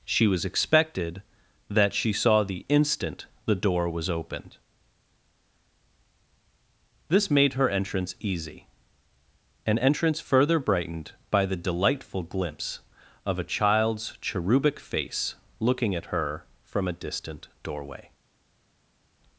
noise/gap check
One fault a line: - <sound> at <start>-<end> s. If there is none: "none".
none